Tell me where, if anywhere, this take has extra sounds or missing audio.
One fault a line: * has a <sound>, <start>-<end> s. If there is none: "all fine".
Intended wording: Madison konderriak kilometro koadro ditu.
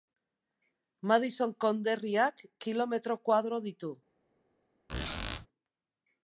* has a squeak, 4.9-5.5 s